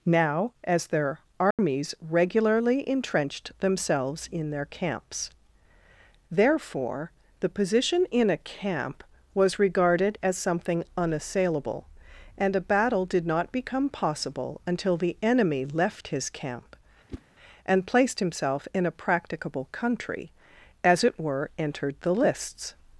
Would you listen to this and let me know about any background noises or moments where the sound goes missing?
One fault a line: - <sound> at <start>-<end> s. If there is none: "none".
- dropout at 1.5-1.6 s
- whoosh at 17.1-17.2 s